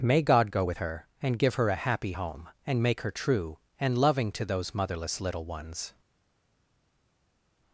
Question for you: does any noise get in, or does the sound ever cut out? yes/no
no